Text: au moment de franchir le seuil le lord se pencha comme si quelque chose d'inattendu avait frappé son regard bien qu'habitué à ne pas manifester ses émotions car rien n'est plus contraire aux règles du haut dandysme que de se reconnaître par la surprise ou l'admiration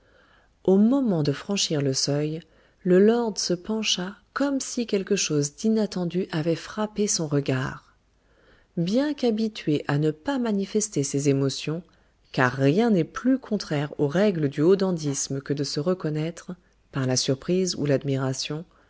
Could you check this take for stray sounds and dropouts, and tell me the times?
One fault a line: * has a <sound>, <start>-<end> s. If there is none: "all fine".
all fine